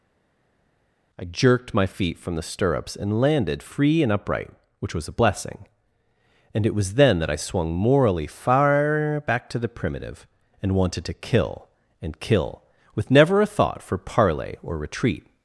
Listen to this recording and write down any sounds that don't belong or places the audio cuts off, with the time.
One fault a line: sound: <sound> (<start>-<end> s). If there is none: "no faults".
no faults